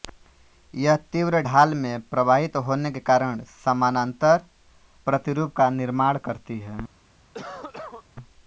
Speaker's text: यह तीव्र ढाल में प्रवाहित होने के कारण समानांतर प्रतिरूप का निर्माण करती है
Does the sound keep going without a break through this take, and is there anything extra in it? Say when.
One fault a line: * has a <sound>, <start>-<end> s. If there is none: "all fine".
* has a cough, 7.3-8.0 s